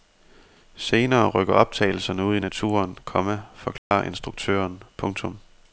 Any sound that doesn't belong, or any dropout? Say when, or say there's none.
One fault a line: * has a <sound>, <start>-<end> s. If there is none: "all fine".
* has a dropout, 3.8-3.9 s